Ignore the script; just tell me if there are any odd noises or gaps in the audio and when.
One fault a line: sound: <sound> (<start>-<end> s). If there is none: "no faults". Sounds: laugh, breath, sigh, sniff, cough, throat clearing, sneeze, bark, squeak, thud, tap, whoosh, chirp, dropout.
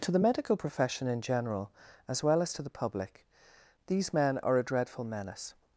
no faults